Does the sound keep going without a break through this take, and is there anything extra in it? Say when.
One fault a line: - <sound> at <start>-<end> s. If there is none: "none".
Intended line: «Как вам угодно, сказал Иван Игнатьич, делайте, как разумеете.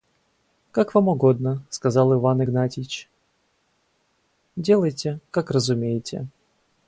none